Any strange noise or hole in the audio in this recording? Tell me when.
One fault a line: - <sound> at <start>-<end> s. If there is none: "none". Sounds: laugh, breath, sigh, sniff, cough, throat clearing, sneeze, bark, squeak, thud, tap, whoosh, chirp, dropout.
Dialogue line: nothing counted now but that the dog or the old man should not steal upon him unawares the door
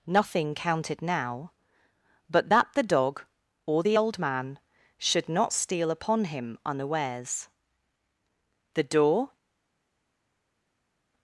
none